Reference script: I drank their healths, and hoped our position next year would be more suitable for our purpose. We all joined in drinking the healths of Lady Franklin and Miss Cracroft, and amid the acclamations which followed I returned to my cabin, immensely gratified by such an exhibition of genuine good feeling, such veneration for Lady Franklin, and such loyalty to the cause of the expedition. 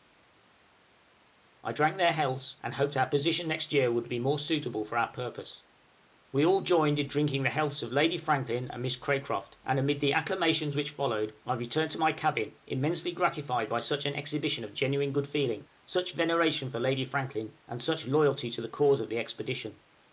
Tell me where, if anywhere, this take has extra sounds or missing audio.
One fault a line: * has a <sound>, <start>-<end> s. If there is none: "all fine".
all fine